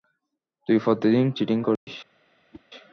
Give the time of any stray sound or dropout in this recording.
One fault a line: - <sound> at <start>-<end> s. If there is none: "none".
- dropout at 1.8-1.9 s
- whoosh at 2.5-2.6 s